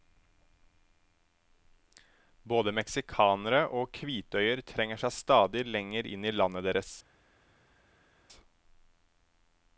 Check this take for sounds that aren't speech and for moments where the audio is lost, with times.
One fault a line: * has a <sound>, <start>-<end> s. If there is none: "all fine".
all fine